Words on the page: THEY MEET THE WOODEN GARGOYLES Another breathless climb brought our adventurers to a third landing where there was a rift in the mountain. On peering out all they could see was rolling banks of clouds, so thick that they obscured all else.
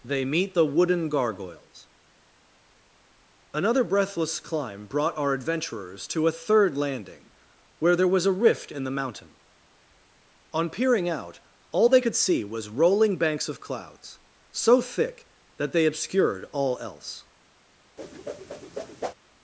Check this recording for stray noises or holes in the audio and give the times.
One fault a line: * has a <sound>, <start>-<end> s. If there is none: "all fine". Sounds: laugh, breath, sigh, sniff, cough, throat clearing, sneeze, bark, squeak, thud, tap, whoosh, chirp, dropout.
* has a whoosh, 18.0-19.1 s